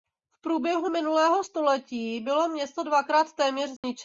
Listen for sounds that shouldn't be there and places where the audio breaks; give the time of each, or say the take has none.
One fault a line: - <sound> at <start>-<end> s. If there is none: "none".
- dropout at 3.8-3.8 s